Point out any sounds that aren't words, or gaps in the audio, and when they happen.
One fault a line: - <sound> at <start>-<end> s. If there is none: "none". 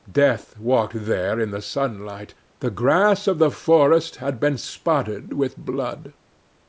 none